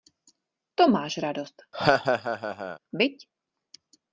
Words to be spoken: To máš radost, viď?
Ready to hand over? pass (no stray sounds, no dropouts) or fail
fail